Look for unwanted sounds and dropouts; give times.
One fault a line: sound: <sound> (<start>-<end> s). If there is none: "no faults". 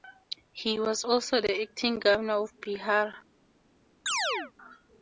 sound: chirp (4.1-4.5 s)